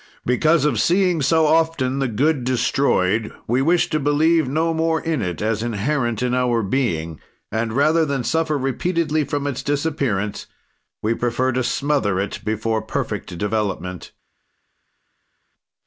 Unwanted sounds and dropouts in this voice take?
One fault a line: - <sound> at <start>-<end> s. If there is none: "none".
none